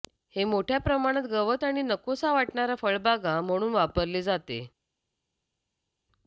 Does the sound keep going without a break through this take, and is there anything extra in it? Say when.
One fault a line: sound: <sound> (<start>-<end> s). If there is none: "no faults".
no faults